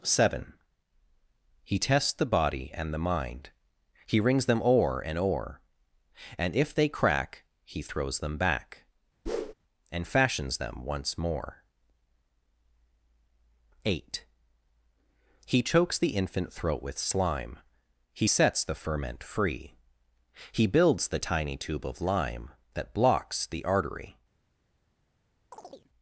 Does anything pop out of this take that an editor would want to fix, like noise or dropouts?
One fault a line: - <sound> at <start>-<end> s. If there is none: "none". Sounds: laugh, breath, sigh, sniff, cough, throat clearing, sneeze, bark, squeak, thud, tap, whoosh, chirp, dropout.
- whoosh at 9.3-9.5 s
- chirp at 25.5-25.9 s